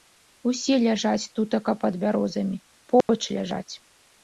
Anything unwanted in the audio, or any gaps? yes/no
yes